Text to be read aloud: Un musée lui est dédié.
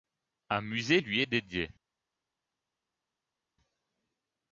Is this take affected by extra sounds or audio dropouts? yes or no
no